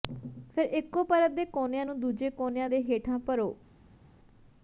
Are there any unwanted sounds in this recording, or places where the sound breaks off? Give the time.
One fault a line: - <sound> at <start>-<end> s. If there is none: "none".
none